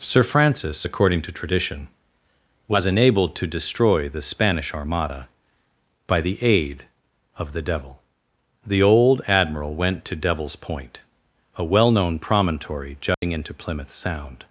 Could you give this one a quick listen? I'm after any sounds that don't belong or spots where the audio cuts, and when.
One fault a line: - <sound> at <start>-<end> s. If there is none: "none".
- dropout at 13.1-13.2 s